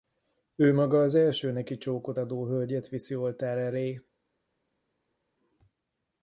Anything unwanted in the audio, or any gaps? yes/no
no